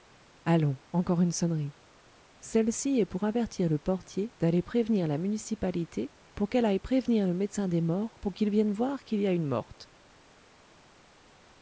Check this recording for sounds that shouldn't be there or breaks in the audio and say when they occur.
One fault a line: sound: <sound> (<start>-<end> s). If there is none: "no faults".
no faults